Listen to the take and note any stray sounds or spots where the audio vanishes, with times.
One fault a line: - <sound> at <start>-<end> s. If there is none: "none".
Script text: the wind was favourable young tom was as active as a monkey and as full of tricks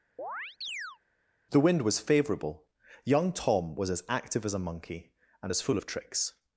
- chirp at 0.2-1.0 s